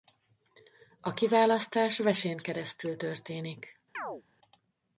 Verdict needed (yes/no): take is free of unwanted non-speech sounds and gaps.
no